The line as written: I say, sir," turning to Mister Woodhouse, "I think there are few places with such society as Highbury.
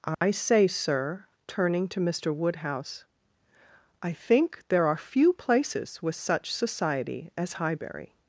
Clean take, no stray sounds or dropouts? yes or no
no